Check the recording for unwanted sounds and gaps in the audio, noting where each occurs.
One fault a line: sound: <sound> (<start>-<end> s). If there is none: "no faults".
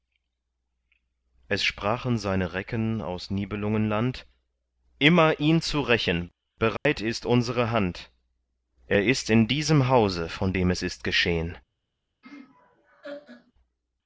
sound: dropout (6.8-6.9 s)
sound: laugh (12.2-13.5 s)